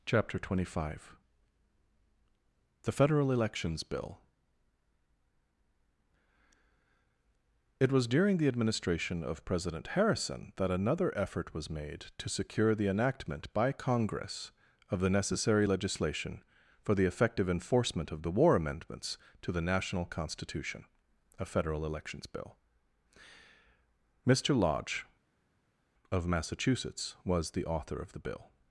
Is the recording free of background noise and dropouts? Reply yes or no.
yes